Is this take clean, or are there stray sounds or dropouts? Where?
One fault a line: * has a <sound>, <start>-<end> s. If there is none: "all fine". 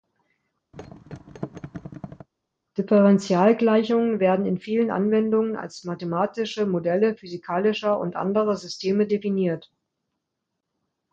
* has a thud, 0.7-2.3 s